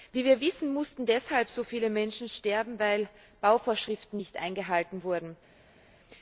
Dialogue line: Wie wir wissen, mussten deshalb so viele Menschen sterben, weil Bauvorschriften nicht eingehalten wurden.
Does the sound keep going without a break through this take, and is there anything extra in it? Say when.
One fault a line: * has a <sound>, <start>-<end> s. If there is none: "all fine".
all fine